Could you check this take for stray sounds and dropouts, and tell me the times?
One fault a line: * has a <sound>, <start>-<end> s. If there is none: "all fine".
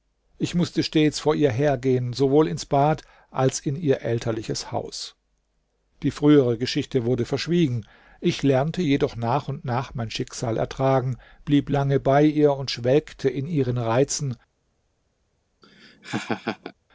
* has a laugh, 15.6-16.7 s